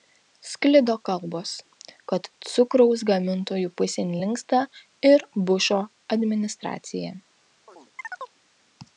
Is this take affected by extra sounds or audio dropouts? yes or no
yes